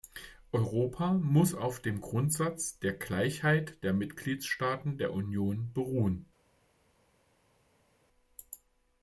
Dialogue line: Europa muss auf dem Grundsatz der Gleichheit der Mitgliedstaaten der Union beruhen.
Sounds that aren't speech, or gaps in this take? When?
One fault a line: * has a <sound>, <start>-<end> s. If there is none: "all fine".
all fine